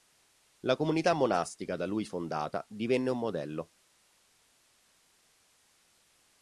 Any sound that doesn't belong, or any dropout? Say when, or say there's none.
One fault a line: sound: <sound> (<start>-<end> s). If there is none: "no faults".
no faults